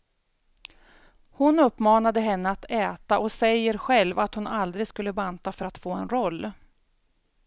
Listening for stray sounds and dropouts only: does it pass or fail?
pass